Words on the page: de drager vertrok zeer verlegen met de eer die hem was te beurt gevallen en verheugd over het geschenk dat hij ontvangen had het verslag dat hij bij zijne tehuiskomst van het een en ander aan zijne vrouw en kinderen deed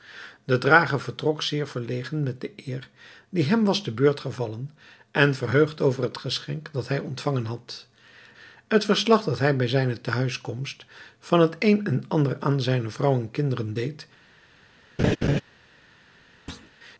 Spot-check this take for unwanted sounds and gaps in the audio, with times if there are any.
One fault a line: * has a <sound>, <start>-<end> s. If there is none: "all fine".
* has a laugh, 15.0-15.4 s
* has a thud, 16.5-16.7 s